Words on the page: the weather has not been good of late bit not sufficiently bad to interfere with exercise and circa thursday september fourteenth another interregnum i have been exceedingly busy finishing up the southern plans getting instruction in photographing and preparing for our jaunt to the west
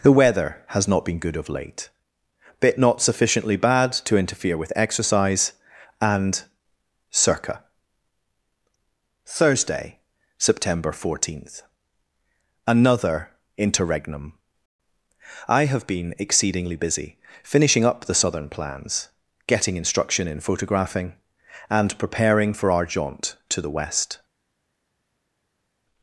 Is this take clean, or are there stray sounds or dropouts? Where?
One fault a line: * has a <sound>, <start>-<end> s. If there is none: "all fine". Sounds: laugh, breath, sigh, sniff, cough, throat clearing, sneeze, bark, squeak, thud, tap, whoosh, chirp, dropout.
all fine